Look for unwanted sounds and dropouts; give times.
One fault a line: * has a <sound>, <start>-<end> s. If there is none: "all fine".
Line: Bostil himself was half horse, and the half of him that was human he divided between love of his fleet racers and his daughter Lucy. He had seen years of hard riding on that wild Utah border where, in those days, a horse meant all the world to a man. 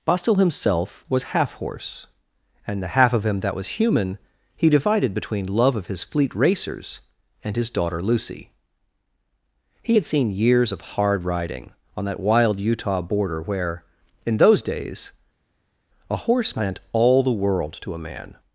all fine